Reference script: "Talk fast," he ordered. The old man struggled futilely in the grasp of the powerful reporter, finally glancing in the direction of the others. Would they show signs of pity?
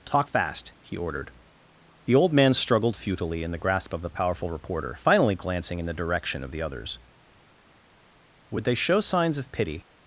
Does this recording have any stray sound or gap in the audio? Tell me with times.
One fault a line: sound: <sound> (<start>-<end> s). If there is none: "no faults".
no faults